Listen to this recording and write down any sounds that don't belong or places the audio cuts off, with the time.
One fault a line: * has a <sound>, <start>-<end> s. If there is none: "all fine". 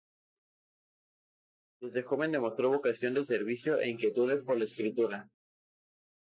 all fine